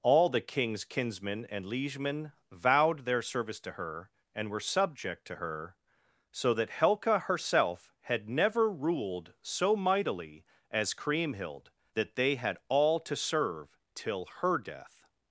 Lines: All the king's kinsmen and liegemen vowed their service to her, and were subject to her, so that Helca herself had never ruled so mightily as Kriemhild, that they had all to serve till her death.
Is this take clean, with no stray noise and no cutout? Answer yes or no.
yes